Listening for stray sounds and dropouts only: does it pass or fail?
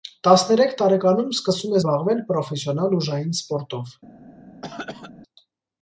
fail